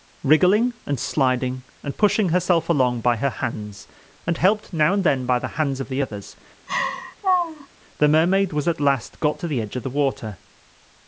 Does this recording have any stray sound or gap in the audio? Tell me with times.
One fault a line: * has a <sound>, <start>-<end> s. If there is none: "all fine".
* has a laugh, 6.7-7.7 s